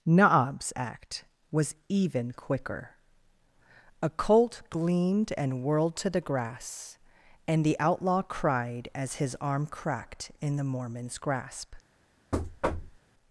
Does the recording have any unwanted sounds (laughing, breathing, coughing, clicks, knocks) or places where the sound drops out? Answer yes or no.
yes